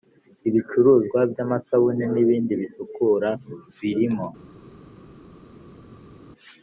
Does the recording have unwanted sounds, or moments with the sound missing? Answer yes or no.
no